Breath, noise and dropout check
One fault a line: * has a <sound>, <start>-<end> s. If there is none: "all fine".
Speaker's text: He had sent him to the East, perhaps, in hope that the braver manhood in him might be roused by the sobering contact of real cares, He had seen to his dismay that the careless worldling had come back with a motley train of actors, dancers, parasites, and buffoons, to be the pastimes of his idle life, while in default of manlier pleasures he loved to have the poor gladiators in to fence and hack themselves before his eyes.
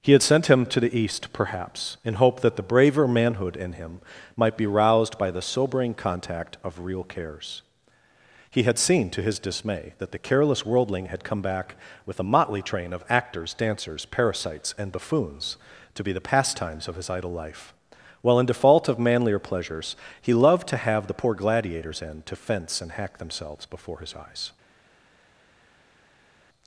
all fine